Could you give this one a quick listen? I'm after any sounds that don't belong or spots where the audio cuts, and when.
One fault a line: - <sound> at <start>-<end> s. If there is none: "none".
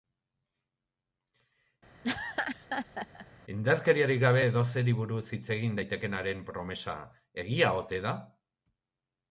- laugh at 2.0-3.3 s